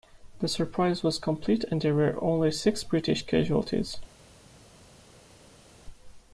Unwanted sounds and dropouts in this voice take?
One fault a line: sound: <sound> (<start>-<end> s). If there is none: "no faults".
no faults